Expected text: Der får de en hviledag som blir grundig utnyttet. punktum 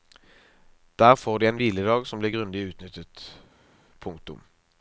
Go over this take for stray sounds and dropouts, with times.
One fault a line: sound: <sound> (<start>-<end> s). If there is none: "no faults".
no faults